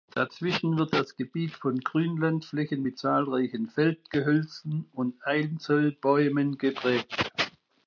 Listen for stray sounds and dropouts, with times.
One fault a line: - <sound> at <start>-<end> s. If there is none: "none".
none